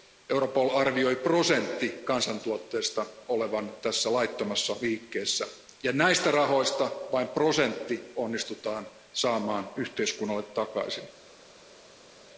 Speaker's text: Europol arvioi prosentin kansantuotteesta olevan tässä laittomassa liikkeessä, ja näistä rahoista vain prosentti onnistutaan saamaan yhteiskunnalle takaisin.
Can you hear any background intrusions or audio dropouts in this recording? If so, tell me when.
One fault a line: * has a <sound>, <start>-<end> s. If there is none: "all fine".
all fine